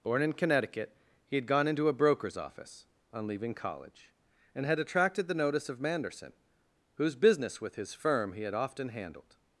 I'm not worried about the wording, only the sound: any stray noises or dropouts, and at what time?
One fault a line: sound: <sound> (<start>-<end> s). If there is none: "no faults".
no faults